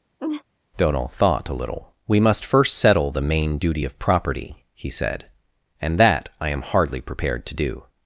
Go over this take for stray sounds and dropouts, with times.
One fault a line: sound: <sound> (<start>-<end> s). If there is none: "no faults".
sound: laugh (0.2-0.4 s)